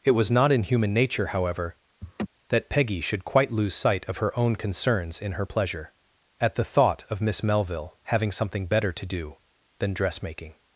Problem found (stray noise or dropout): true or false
true